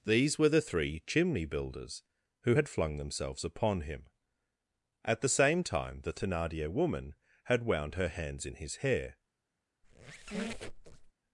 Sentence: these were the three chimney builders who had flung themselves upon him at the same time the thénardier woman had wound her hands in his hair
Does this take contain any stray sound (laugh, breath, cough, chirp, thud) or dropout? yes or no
yes